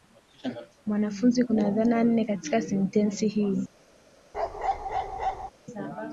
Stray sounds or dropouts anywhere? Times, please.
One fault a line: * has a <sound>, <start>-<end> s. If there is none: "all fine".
* has a bark, 4.3-5.5 s